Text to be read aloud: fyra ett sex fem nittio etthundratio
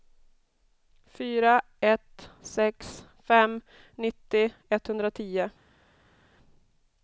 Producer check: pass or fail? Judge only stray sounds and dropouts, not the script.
pass